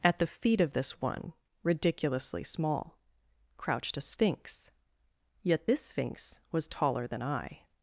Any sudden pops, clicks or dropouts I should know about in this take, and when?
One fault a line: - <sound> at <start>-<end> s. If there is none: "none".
none